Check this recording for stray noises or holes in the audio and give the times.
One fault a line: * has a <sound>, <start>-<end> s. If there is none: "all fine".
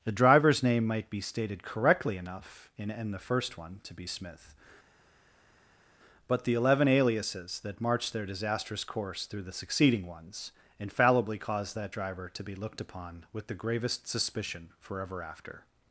all fine